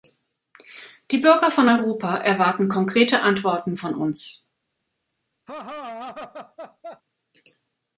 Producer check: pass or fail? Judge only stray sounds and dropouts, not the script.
fail